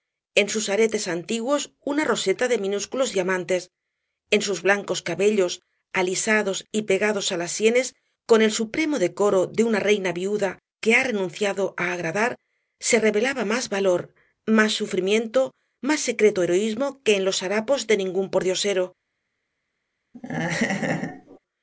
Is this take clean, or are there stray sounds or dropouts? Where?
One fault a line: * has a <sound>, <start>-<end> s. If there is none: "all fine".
* has a laugh, 20.1-21.4 s